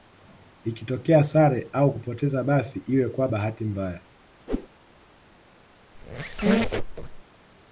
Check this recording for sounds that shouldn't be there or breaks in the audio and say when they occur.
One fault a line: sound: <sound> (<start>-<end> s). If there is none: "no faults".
sound: whoosh (4.5-4.7 s)
sound: squeak (5.9-7.2 s)